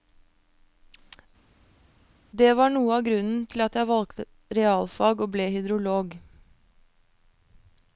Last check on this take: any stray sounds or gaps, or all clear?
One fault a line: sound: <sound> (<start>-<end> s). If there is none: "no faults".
no faults